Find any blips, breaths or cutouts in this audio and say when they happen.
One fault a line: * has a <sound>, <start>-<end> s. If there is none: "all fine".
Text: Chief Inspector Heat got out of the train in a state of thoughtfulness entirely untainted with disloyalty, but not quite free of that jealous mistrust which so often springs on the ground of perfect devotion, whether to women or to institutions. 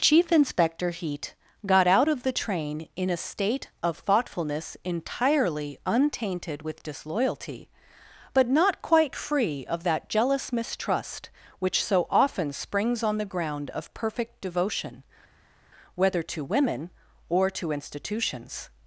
all fine